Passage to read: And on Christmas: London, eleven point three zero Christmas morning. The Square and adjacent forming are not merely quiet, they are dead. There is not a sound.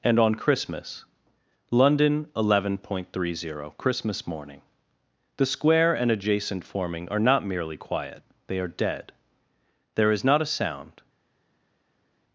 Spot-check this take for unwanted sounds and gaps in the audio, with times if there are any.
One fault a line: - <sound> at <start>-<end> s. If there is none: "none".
none